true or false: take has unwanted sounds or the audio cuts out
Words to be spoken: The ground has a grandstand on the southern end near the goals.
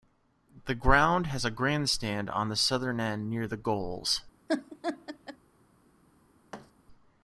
true